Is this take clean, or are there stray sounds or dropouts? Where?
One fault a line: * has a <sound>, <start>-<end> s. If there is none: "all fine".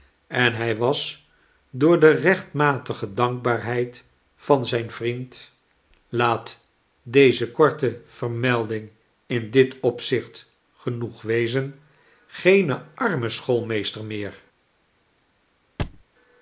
* has a thud, 15.8-16.0 s